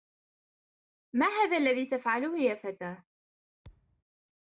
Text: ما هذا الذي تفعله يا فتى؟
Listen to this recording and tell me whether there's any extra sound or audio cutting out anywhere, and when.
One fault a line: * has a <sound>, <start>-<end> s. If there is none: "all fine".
* has a thud, 3.6-4.0 s